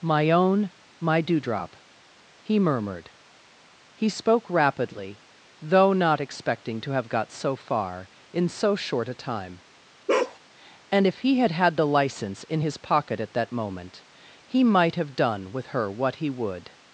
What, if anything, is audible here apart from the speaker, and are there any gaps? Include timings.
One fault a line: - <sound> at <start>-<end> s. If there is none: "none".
- bark at 10.1-10.4 s